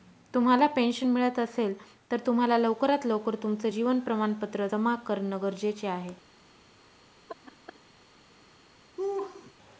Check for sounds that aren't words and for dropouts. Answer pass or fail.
fail